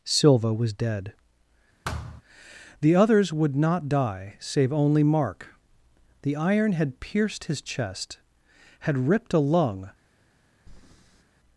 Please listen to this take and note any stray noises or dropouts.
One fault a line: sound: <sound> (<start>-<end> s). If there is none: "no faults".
sound: thud (1.8-2.2 s)
sound: breath (10.7-11.2 s)